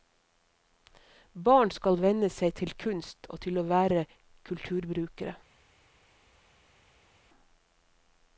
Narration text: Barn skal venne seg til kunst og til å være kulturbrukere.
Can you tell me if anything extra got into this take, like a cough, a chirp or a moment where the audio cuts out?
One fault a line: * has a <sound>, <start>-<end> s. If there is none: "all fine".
all fine